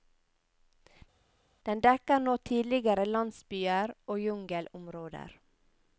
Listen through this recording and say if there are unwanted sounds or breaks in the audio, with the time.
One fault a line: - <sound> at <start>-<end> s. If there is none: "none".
none